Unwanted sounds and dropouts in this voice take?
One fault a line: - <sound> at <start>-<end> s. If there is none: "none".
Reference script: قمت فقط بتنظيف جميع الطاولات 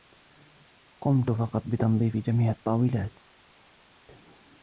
none